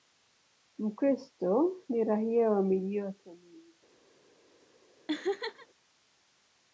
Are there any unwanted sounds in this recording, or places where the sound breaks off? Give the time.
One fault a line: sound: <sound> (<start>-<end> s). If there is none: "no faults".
sound: laugh (5.1-5.7 s)